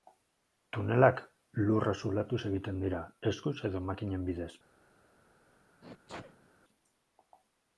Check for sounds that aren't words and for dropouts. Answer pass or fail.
fail